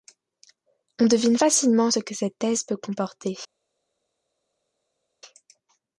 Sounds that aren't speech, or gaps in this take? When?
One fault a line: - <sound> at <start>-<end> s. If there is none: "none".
none